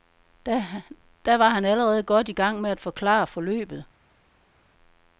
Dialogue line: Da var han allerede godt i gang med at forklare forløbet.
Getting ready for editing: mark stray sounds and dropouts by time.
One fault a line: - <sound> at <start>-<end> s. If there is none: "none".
none